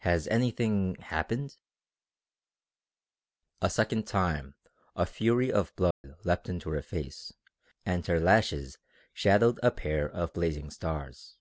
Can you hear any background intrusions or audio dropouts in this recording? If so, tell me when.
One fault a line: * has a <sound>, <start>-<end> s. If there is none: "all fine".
* has a dropout, 5.9-6.0 s